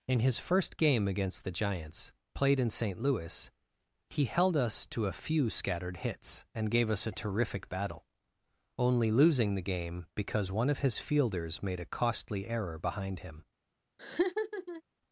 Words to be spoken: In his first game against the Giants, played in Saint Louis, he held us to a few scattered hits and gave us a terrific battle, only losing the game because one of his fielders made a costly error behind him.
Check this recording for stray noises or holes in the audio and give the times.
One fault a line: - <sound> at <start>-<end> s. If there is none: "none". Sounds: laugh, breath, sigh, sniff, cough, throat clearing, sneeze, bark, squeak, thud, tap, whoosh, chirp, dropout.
- laugh at 14.0-14.8 s